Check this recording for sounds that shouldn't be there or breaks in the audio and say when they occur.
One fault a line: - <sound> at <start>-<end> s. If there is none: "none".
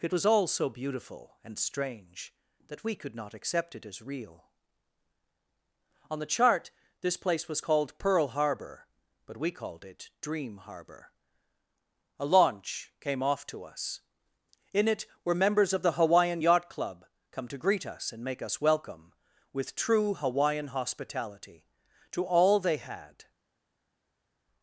none